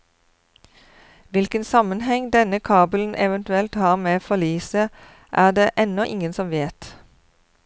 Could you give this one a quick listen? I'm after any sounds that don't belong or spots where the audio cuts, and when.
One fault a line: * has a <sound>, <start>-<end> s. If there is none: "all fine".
all fine